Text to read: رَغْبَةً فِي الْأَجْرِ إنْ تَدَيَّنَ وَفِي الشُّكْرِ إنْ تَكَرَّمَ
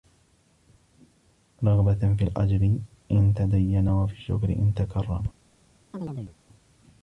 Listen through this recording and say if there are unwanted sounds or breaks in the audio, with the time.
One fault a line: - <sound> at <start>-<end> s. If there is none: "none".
- chirp at 5.9-6.4 s